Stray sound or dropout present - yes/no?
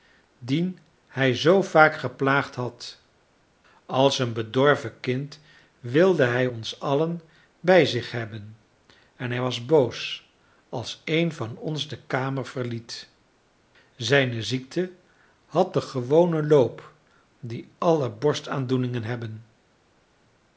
no